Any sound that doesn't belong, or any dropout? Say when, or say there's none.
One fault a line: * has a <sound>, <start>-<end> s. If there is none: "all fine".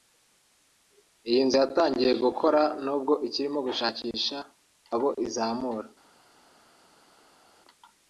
all fine